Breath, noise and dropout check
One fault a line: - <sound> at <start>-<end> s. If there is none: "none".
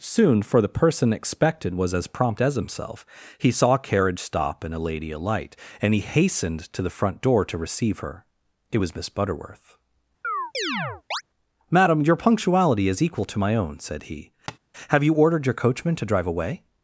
- chirp at 10.2-11.2 s
- tap at 14.5-14.6 s